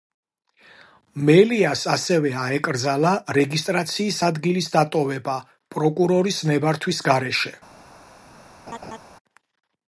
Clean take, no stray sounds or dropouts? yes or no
no